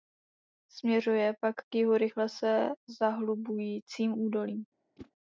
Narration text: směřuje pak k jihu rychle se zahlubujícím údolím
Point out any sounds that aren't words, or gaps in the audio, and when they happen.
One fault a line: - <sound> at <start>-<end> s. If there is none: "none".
- whoosh at 5.0-5.1 s